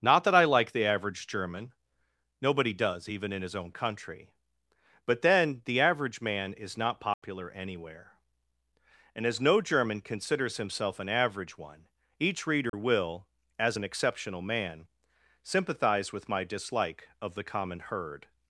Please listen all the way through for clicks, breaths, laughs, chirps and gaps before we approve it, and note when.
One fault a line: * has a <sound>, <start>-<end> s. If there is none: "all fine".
* has a dropout, 7.1-7.2 s
* has a dropout, 12.7-12.7 s